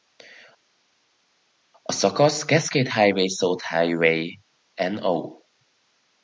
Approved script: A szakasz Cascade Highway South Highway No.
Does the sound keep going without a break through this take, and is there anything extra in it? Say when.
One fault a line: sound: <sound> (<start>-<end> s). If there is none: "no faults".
no faults